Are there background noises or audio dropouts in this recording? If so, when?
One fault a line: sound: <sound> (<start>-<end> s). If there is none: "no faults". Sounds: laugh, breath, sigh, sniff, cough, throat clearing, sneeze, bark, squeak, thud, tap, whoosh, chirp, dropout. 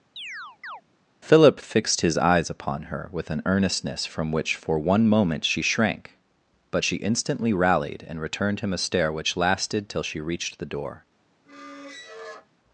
sound: chirp (0.2-0.8 s)
sound: squeak (11.4-12.5 s)